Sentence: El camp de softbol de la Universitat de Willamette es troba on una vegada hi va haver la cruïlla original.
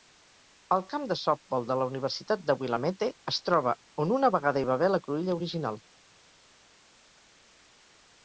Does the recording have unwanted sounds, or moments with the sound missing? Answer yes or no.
no